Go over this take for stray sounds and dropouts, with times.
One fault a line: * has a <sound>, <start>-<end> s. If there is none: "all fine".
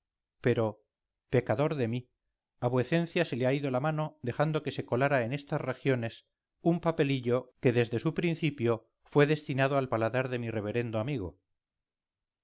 all fine